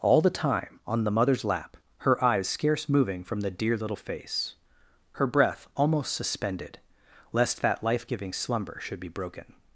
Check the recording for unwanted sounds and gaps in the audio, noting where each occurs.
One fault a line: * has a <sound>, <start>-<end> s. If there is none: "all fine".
all fine